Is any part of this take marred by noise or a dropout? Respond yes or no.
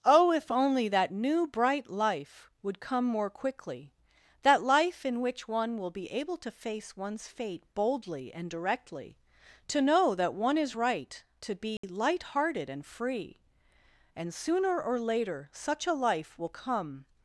yes